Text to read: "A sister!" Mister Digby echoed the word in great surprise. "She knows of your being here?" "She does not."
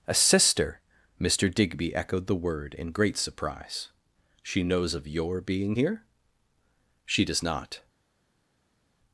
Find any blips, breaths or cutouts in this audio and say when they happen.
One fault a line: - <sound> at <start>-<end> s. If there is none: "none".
none